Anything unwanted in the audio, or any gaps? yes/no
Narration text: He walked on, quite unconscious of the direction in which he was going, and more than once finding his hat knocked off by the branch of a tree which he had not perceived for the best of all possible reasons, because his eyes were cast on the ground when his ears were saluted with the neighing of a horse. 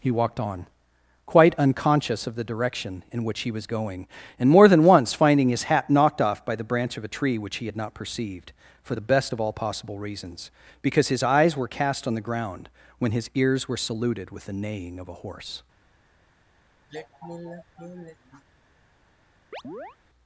yes